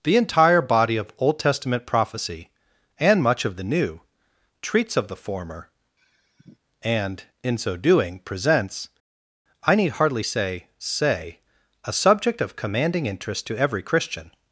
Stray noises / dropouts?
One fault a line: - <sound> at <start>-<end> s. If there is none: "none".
- sigh at 6.0-6.6 s